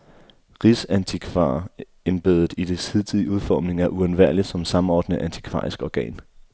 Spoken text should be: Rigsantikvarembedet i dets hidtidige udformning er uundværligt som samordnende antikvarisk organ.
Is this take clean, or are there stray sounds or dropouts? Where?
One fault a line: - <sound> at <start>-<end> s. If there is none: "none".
none